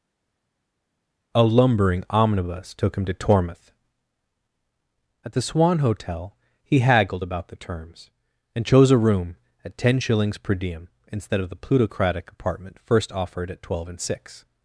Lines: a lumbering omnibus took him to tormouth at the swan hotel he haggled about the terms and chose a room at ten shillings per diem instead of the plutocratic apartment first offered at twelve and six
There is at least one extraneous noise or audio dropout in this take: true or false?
false